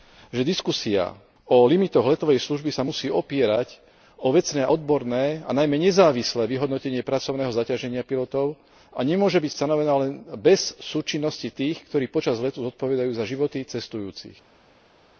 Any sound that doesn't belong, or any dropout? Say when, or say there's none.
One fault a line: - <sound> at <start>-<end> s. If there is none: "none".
none